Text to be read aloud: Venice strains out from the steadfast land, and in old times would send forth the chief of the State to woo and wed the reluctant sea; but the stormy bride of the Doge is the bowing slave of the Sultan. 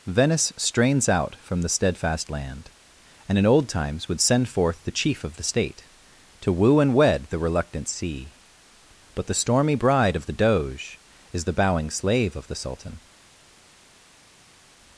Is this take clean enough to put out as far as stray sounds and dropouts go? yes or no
yes